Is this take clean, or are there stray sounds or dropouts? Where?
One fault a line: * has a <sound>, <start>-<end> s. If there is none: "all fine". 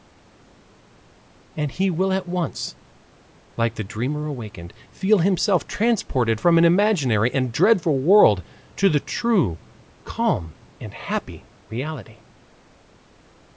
all fine